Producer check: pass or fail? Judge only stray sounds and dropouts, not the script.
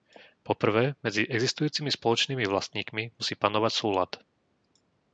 pass